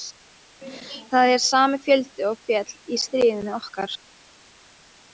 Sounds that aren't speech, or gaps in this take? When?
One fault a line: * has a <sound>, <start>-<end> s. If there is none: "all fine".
all fine